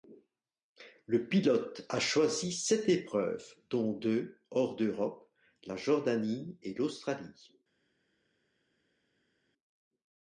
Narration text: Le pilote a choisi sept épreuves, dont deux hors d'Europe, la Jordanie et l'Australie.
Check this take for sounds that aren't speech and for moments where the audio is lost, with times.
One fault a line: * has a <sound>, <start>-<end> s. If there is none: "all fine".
all fine